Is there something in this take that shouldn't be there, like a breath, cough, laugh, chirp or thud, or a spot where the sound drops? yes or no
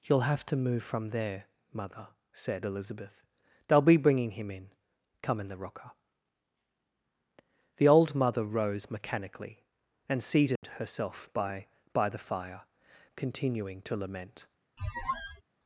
yes